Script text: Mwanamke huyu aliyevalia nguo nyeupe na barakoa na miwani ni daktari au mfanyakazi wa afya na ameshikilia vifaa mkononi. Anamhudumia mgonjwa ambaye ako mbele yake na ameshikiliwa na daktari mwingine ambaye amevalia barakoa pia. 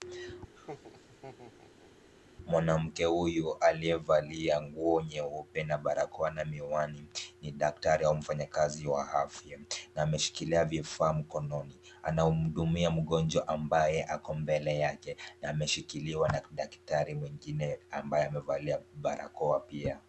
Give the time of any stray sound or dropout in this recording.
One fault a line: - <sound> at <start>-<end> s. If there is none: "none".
- laugh at 0.5-1.9 s